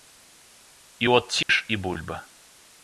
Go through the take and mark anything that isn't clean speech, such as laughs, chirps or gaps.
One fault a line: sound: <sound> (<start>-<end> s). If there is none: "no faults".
sound: dropout (1.4-1.5 s)